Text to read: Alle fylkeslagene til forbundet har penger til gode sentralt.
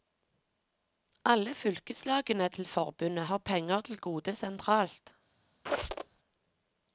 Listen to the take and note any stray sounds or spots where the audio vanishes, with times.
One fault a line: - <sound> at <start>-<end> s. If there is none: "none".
- squeak at 5.7-6.2 s